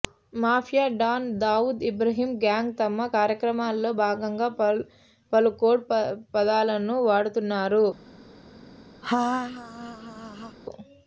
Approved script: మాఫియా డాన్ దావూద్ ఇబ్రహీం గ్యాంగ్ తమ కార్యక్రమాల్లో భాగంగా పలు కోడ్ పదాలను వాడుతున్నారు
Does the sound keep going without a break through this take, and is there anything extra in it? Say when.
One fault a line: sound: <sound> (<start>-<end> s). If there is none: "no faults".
sound: laugh (9.0-10.6 s)